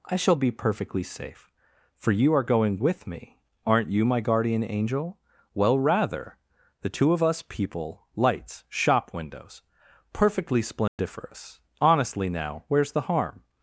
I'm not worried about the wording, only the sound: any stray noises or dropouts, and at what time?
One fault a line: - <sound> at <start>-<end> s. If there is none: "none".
- dropout at 10.9-11.0 s